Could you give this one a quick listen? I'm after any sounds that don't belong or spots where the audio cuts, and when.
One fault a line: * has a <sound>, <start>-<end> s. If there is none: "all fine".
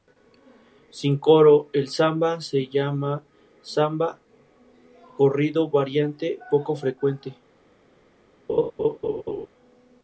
* has a laugh, 8.5-9.5 s